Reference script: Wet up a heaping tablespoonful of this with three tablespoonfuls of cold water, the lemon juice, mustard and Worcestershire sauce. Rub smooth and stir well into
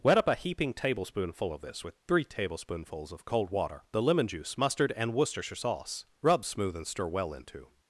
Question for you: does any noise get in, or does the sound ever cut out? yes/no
no